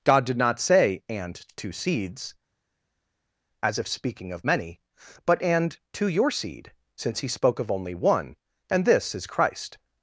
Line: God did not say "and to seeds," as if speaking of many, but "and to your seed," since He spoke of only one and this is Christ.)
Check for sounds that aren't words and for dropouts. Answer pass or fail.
pass